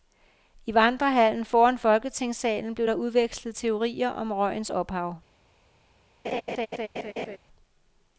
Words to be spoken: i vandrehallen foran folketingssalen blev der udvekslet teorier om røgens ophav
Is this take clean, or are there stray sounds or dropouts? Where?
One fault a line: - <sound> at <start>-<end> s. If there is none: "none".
- laugh at 6.2-7.4 s